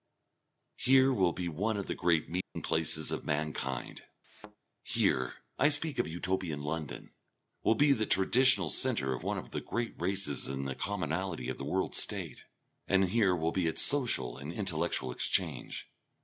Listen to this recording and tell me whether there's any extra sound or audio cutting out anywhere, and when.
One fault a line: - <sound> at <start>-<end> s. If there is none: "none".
- dropout at 2.4-2.6 s
- thud at 4.2-4.6 s